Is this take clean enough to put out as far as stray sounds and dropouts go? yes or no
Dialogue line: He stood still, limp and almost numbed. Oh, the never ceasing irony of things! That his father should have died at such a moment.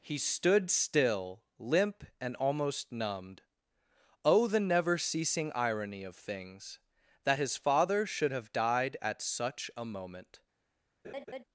no